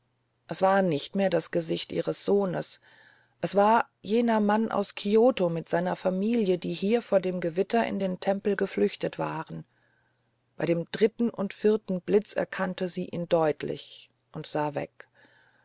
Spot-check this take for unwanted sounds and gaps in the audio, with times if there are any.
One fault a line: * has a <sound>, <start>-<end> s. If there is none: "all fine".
all fine